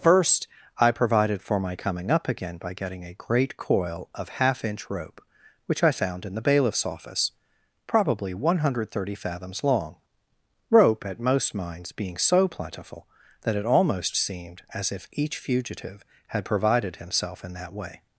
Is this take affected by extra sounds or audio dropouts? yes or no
no